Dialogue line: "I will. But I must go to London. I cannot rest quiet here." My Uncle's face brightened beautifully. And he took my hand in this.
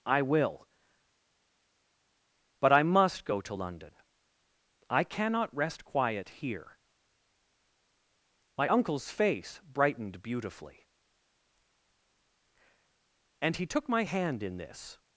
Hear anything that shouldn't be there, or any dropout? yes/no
no